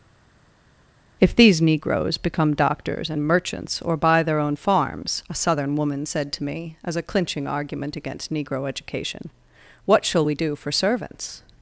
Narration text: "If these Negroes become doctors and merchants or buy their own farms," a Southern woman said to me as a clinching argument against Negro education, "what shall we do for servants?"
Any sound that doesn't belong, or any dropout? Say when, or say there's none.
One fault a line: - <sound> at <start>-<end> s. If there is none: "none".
none